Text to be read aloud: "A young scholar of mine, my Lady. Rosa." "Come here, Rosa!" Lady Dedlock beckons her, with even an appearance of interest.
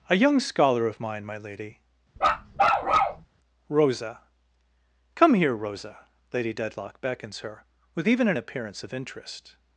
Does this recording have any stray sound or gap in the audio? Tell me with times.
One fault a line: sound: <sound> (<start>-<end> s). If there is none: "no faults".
sound: bark (2.2-3.2 s)